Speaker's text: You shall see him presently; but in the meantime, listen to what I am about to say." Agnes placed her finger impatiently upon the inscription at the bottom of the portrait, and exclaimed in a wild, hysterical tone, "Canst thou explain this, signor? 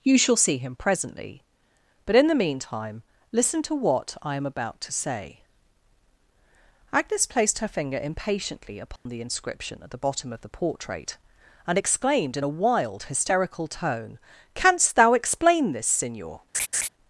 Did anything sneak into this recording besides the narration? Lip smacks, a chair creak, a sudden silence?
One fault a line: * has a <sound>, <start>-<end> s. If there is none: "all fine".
* has a dropout, 9.0-9.1 s
* has a laugh, 16.5-16.9 s